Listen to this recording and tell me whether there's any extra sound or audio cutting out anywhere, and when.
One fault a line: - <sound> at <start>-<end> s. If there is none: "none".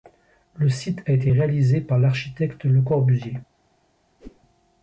- whoosh at 4.2-4.4 s